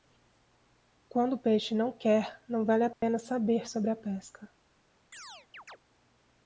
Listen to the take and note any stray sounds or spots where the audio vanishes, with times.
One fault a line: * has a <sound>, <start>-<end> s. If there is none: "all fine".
* has a dropout, 2.9-3.0 s
* has a chirp, 5.1-5.8 s